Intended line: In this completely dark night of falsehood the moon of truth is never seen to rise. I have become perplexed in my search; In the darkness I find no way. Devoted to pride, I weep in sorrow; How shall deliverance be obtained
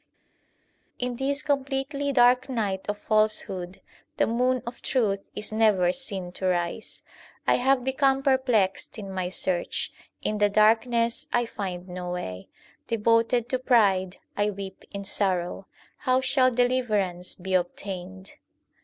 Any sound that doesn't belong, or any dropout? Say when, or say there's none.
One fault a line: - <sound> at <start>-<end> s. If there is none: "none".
none